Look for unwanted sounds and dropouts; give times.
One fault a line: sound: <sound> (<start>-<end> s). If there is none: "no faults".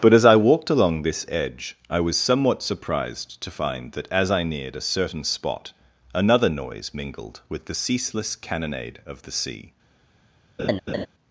sound: laugh (10.6-11.1 s)